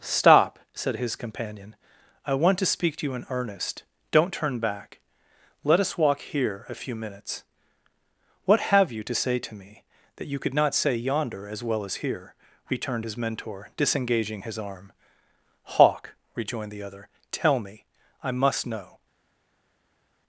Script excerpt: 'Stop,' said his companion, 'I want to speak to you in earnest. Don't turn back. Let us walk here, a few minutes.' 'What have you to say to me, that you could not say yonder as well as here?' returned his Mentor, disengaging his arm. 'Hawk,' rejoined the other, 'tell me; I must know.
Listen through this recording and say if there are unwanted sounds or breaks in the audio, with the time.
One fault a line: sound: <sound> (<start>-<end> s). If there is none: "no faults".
no faults